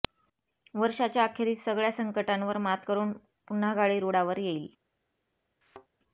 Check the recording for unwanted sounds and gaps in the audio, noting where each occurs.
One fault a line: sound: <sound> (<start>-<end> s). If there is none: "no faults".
sound: thud (5.6-5.9 s)